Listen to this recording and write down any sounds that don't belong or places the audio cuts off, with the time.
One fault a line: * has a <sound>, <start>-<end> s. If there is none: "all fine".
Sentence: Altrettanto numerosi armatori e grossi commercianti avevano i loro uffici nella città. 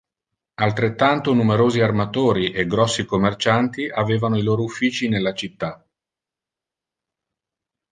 all fine